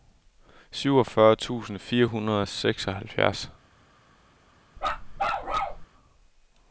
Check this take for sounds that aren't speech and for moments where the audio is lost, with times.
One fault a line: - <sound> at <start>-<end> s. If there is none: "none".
- bark at 4.8-5.9 s